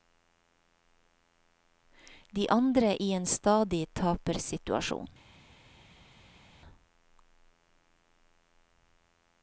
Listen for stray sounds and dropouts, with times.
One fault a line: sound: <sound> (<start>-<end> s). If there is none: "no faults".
no faults